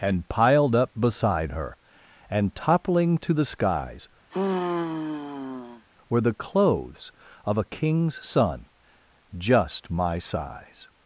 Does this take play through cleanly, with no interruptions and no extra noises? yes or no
no